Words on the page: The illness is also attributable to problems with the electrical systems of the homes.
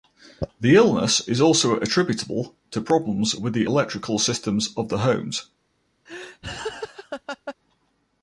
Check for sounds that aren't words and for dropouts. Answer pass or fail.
fail